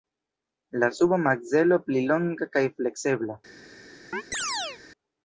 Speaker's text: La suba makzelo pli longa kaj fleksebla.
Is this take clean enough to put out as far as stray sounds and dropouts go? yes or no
no